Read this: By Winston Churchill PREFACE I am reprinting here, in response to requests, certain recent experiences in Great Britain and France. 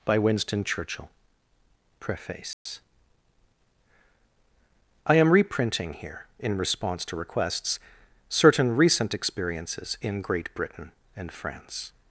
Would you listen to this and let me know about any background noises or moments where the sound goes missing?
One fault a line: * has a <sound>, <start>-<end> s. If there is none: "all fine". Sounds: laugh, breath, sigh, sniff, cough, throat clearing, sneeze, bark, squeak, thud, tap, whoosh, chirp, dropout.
* has a dropout, 2.5-2.7 s